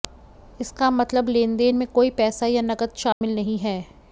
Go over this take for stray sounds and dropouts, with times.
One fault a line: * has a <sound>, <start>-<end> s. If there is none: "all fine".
* has a dropout, 3.1-3.2 s